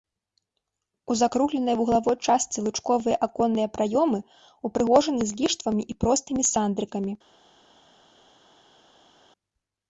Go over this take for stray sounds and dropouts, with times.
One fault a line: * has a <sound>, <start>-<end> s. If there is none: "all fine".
all fine